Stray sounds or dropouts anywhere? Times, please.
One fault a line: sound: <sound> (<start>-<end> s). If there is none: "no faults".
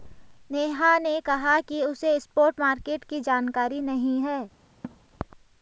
sound: laugh (4.8-5.0 s)